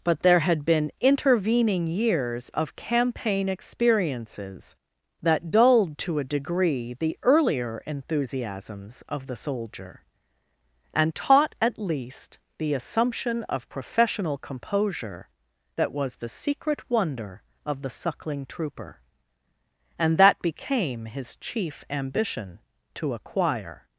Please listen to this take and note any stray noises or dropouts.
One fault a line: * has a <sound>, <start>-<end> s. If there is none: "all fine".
all fine